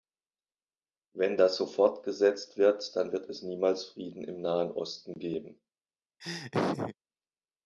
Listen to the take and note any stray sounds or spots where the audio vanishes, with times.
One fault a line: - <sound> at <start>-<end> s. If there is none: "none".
- laugh at 6.2-6.9 s